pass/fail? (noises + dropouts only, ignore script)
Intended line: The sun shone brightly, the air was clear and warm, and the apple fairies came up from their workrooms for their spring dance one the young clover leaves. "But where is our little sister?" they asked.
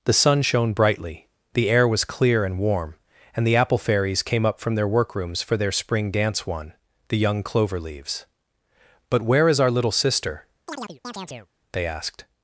fail